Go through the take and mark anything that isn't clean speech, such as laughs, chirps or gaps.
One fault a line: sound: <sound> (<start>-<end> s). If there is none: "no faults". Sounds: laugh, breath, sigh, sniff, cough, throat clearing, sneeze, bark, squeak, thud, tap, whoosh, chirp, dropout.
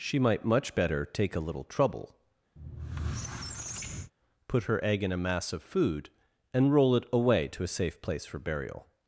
sound: squeak (2.6-4.1 s)